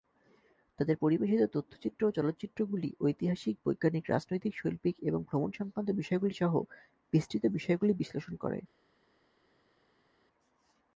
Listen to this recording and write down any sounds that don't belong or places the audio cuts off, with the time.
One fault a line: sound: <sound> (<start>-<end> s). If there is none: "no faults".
no faults